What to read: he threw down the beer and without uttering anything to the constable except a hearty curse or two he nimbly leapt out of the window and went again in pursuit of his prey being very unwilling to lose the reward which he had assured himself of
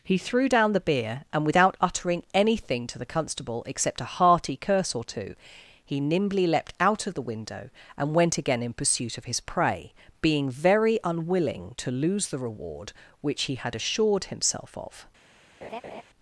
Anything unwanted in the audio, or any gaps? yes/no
yes